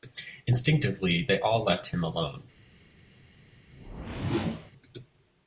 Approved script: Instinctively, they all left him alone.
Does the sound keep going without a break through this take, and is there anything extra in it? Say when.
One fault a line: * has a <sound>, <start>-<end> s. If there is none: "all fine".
* has a whoosh, 3.7-4.7 s